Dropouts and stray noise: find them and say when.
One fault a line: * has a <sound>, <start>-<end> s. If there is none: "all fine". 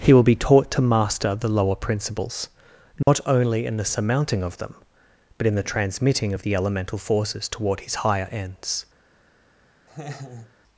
* has a dropout, 3.0-3.1 s
* has a laugh, 9.9-10.5 s